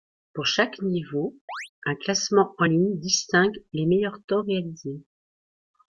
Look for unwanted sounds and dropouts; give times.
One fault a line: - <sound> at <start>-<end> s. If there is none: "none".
- chirp at 1.5-1.7 s